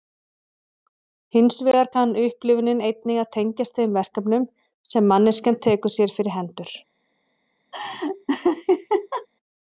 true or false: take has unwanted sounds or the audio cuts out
true